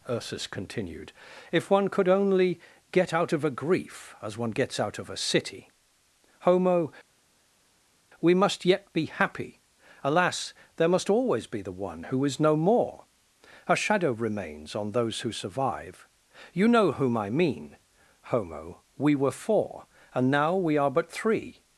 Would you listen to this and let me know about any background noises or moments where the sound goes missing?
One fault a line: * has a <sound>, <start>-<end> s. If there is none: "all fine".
all fine